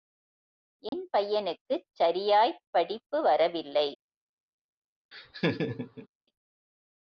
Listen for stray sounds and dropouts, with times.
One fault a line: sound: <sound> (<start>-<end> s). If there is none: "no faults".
sound: dropout (0.9-0.9 s)
sound: laugh (5.1-6.1 s)